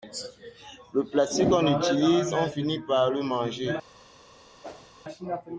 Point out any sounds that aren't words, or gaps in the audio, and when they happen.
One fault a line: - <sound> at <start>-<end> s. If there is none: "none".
- whoosh at 4.6-4.9 s